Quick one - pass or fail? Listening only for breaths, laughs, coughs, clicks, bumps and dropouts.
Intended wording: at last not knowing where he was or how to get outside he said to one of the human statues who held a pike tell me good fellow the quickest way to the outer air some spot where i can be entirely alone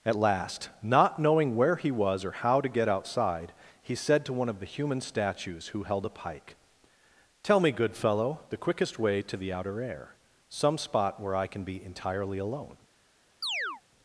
fail